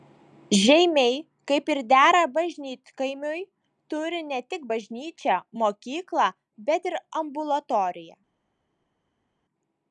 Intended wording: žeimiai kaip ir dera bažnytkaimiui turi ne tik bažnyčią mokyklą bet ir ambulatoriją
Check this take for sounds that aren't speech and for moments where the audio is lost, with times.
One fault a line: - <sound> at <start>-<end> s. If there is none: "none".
none